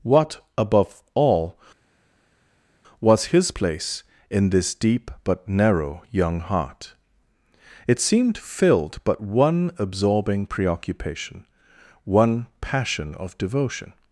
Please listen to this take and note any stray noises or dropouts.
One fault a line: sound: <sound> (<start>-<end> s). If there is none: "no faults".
no faults